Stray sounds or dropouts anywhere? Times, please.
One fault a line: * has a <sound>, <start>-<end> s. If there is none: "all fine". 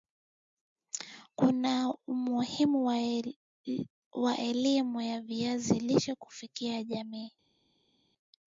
all fine